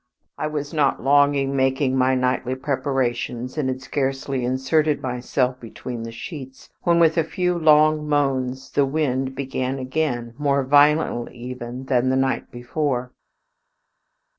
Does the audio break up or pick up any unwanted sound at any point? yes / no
no